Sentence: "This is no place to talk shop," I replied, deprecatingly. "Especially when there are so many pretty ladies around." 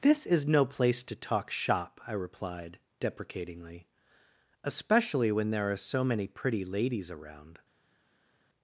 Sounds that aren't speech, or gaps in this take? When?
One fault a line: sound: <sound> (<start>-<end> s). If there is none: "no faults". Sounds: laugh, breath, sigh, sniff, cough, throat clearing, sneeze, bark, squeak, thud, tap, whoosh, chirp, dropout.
no faults